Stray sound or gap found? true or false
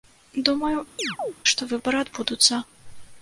true